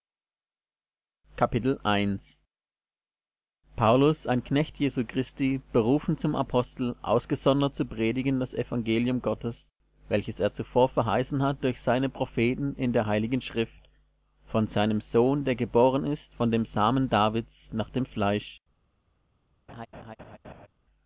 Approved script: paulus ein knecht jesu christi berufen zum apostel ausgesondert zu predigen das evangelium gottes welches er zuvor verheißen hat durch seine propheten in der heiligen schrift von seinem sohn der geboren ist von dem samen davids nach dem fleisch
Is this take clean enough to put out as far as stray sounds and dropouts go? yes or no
no